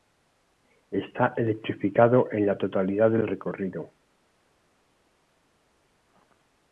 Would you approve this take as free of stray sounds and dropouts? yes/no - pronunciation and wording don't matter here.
yes